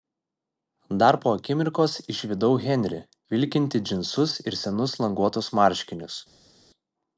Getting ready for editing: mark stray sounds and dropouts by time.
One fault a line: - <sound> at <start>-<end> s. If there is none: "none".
none